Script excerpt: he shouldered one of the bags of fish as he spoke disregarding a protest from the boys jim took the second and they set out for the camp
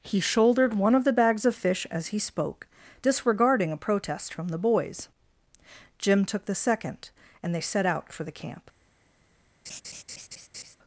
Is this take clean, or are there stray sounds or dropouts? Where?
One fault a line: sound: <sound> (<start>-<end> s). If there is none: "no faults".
sound: laugh (9.7-10.8 s)